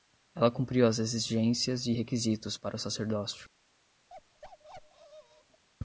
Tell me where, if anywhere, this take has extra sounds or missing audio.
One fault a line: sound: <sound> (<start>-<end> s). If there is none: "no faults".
sound: bark (4.1-5.6 s)